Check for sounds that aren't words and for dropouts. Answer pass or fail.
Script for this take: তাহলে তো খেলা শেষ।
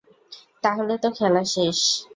pass